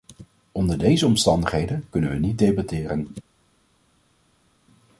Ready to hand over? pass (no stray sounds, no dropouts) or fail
pass